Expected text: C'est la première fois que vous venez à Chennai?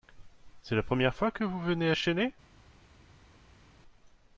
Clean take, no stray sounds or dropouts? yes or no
yes